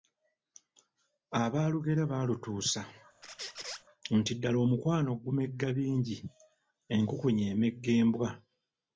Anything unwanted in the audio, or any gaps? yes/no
yes